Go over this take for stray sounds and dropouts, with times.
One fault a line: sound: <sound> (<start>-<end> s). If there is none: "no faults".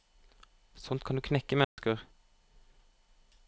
sound: dropout (1.6-1.8 s)